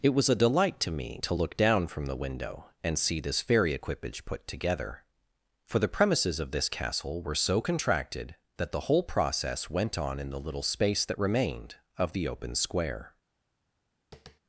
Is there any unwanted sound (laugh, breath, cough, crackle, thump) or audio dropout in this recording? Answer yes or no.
yes